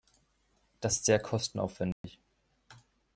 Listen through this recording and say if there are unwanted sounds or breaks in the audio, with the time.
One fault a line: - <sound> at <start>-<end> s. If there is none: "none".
- dropout at 1.9-2.0 s